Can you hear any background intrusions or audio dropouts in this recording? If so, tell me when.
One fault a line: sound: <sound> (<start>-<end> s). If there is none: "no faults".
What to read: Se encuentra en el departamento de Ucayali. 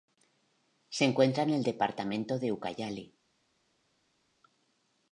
no faults